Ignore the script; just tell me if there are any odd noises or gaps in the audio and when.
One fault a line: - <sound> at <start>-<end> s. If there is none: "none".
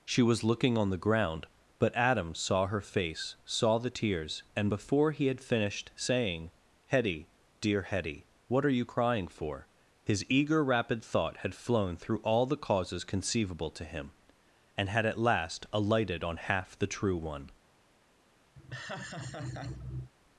- laugh at 18.5-20.1 s